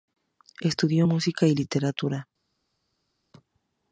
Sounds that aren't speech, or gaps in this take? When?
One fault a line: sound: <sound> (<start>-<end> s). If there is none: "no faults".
no faults